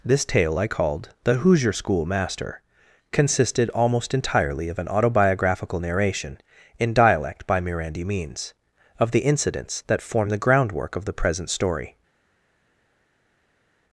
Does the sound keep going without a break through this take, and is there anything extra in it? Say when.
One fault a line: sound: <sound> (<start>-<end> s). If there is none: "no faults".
no faults